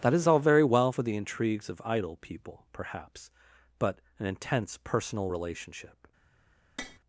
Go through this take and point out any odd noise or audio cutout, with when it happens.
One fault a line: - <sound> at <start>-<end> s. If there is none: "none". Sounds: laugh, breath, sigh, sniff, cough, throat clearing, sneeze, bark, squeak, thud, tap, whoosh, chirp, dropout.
- tap at 6.8-7.0 s